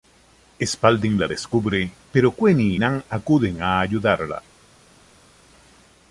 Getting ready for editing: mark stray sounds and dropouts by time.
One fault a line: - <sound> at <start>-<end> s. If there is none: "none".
none